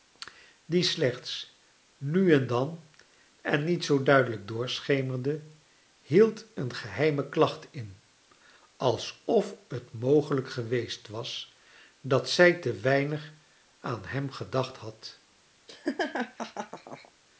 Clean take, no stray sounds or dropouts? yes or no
no